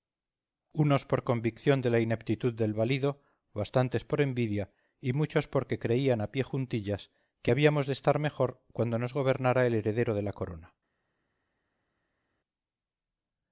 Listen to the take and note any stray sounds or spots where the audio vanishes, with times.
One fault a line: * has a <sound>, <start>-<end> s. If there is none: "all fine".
all fine